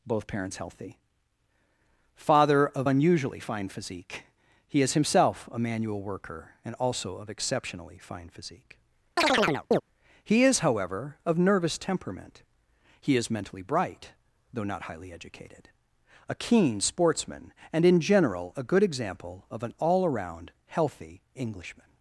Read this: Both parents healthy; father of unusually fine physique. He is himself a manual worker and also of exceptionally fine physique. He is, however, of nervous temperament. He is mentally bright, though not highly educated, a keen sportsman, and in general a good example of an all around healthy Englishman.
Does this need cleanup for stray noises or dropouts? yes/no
yes